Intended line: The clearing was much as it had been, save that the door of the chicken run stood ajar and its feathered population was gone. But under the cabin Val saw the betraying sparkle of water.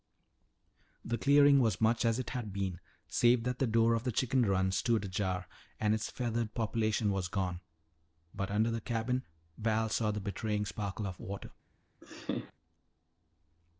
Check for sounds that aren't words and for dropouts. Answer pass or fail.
fail